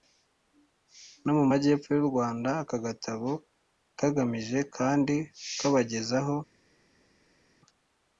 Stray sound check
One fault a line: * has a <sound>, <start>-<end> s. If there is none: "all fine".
all fine